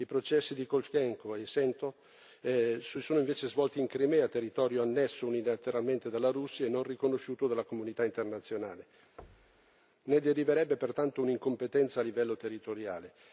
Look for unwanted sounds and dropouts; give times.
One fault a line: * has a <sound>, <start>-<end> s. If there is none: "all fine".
* has a thud, 9.2-9.8 s